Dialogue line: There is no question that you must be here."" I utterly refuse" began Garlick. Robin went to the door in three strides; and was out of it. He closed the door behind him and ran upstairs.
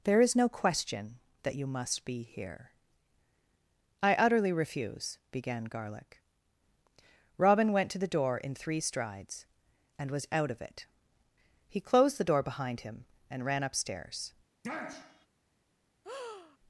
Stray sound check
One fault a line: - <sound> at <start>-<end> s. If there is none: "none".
- sniff at 14.6-15.3 s
- breath at 16.0-16.6 s